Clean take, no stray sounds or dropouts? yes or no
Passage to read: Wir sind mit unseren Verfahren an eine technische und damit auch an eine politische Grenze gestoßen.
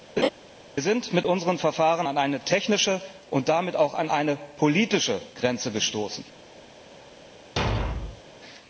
no